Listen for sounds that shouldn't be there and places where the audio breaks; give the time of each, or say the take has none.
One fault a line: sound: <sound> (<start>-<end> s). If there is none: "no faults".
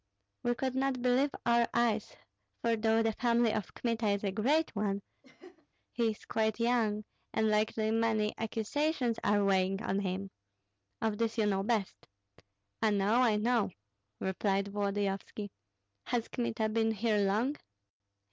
sound: laugh (5.2-5.7 s)